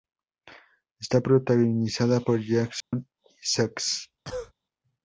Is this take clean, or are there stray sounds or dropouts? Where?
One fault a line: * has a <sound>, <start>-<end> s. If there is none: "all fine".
* has a dropout, 2.8-2.9 s
* has a cough, 4.2-4.5 s